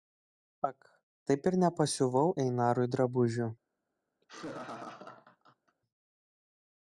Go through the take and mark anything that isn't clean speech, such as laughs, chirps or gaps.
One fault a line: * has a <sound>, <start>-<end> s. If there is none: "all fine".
* has a laugh, 4.2-5.8 s